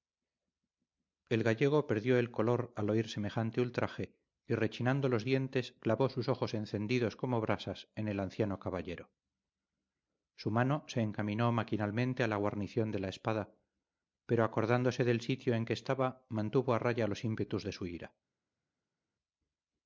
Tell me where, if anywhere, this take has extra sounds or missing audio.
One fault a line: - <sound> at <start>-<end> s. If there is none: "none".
none